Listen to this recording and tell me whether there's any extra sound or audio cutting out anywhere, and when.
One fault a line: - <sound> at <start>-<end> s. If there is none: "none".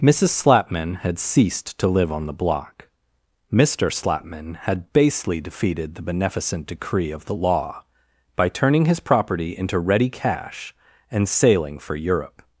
none